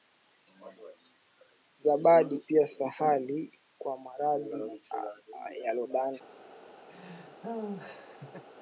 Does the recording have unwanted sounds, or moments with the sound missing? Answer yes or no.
yes